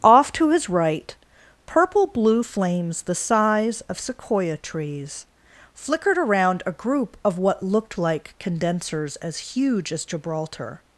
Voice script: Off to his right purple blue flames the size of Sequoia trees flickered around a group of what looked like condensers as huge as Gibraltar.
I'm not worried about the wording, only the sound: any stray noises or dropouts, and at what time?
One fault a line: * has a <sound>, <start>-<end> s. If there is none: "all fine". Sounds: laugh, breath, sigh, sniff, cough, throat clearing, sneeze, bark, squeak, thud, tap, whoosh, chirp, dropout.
all fine